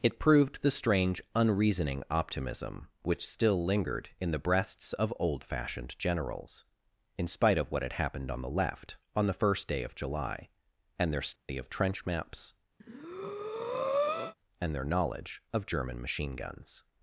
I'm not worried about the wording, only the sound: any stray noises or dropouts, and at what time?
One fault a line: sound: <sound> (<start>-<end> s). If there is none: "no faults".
sound: dropout (11.4-11.5 s)
sound: breath (12.8-14.3 s)